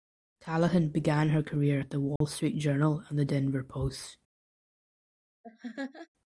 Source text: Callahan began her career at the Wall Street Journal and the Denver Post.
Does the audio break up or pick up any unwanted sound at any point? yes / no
yes